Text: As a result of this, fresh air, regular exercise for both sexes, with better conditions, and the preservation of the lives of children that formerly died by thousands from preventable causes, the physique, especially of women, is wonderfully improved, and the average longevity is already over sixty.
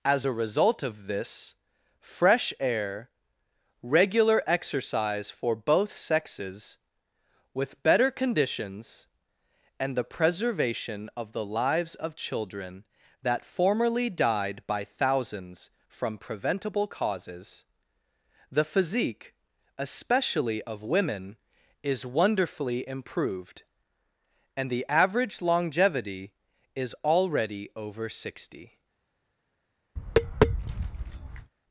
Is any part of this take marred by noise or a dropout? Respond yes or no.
yes